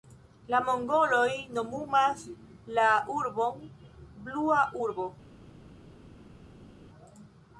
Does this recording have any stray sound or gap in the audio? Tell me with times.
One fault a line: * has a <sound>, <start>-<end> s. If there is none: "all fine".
all fine